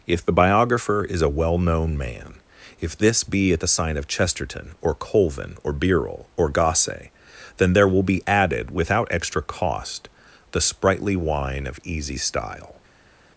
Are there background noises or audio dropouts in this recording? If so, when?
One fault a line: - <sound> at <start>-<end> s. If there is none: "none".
none